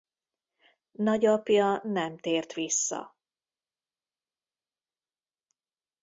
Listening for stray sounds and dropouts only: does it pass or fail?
pass